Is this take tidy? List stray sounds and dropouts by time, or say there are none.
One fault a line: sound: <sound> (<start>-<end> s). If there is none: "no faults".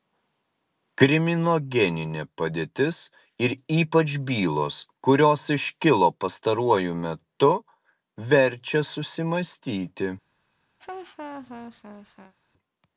sound: laugh (10.8-12.3 s)